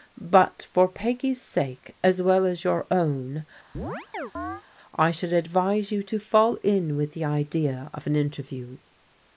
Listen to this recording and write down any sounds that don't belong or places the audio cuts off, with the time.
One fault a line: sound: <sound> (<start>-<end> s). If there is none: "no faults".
sound: chirp (3.7-4.6 s)